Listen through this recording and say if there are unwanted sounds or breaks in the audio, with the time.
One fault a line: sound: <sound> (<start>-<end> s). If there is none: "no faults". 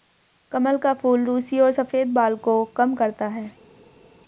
no faults